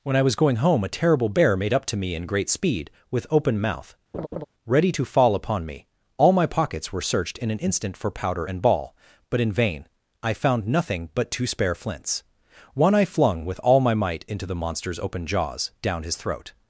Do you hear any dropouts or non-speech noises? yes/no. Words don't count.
yes